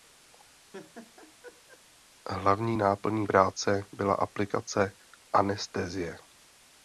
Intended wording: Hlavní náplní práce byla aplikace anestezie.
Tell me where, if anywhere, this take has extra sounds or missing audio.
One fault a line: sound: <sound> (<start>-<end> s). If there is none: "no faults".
sound: laugh (0.7-1.8 s)